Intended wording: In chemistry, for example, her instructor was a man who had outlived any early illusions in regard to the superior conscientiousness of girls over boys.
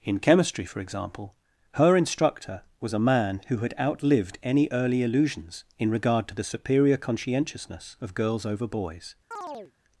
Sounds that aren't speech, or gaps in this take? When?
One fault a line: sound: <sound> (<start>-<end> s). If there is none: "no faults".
sound: chirp (9.3-9.7 s)